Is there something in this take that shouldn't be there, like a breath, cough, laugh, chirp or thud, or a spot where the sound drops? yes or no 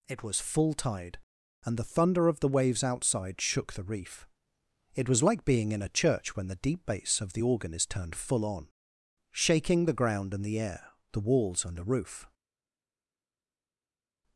no